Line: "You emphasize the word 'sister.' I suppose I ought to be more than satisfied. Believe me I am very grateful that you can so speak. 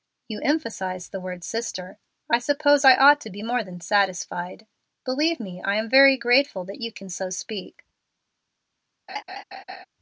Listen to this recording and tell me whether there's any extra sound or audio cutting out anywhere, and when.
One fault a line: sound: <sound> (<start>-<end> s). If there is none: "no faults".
sound: laugh (9.1-9.9 s)